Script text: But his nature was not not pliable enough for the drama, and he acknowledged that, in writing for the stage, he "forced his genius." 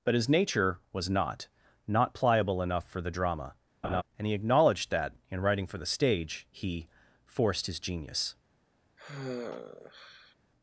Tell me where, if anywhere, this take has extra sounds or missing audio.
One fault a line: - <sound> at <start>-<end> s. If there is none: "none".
- laugh at 3.8-4.0 s
- sigh at 9.0-10.4 s